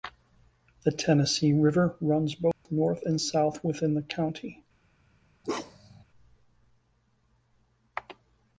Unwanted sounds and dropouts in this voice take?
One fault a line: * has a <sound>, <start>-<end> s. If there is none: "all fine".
* has a dropout, 2.5-2.7 s
* has a bark, 5.4-6.0 s